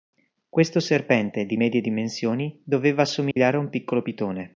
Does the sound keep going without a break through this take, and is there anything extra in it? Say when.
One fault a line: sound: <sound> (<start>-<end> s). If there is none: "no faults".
sound: dropout (3.3-3.4 s)